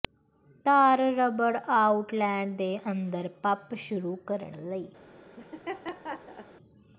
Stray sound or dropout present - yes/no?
yes